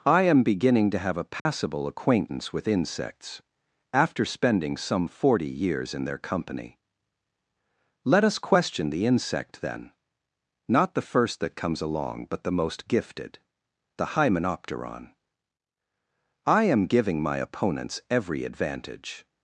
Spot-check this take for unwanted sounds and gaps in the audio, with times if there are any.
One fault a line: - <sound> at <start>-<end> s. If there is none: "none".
- dropout at 1.4-1.5 s